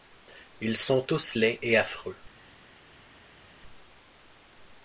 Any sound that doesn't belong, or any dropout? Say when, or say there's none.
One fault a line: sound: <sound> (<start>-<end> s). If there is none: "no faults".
no faults